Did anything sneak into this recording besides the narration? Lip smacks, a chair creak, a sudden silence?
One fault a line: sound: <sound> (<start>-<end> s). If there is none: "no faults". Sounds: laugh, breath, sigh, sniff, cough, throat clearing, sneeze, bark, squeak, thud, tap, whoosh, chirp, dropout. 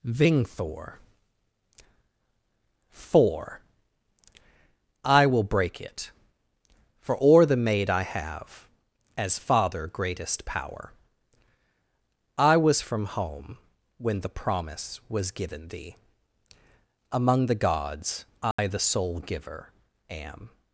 sound: dropout (18.5-18.6 s)